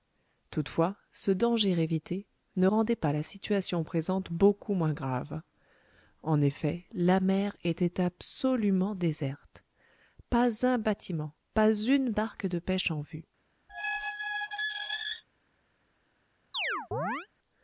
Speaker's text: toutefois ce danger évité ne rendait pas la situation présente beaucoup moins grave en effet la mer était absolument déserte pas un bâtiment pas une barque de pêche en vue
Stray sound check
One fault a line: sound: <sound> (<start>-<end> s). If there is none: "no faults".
sound: squeak (13.7-15.2 s)
sound: chirp (16.5-17.3 s)